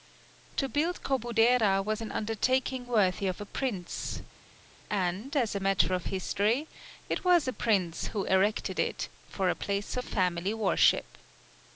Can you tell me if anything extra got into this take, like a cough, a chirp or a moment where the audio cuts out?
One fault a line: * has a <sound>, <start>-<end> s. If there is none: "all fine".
all fine